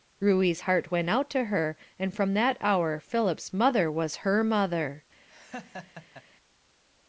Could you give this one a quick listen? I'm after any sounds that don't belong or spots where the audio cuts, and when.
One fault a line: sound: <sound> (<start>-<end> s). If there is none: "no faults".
sound: laugh (5.3-6.2 s)